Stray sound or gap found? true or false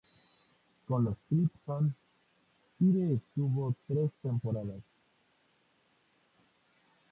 false